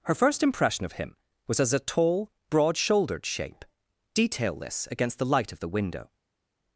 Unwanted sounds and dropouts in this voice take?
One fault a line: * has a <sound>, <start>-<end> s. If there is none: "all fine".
all fine